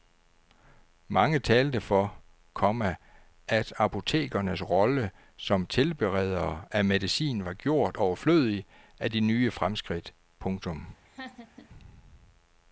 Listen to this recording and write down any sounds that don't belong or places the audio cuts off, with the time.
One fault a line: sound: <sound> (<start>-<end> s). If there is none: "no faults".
sound: laugh (11.0-11.7 s)